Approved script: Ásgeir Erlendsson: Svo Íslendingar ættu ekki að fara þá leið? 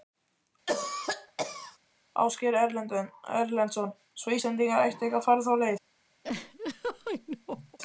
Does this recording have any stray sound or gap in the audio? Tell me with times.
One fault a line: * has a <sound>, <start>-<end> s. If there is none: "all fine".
* has a cough, 0.7-1.8 s
* has a laugh, 6.2-7.8 s